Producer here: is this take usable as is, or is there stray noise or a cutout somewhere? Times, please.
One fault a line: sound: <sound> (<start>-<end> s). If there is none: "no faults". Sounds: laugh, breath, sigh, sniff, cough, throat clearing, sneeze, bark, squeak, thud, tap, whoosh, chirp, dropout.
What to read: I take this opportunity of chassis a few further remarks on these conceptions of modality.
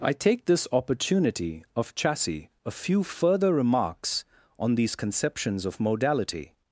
no faults